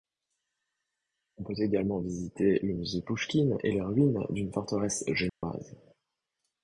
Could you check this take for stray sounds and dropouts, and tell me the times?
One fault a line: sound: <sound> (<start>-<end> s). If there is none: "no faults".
sound: dropout (5.3-5.4 s)